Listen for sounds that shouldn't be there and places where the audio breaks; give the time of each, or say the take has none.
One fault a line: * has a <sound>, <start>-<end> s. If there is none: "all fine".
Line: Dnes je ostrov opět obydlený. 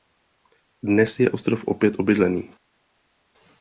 all fine